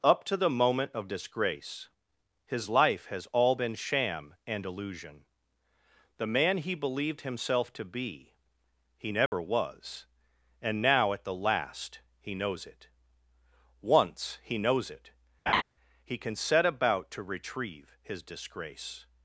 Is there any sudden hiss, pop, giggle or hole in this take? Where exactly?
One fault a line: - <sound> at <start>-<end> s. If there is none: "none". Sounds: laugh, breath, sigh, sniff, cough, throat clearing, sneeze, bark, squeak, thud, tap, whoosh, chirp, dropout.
- dropout at 9.3-9.3 s
- laugh at 15.5-15.6 s